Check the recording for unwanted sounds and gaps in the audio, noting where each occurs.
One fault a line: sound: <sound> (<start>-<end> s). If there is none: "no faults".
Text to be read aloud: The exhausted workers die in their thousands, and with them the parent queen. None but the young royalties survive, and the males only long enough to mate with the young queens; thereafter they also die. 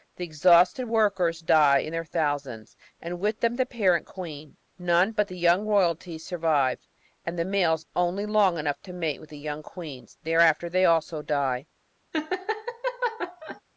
sound: laugh (12.1-13.6 s)